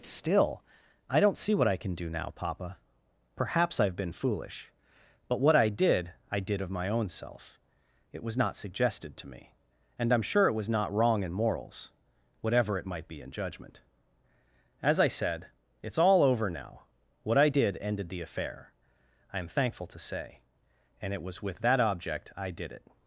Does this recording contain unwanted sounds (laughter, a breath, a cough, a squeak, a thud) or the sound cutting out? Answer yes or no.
no